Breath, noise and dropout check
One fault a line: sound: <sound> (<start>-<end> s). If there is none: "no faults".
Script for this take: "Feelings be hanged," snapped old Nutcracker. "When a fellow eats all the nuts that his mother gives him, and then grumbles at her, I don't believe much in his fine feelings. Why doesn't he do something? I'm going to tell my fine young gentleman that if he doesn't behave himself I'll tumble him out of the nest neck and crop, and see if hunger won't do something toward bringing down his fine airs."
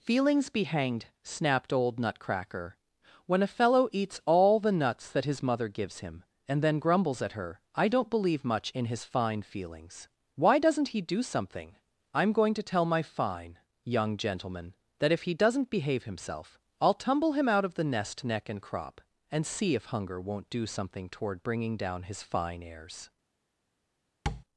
sound: tap (24.3-24.4 s)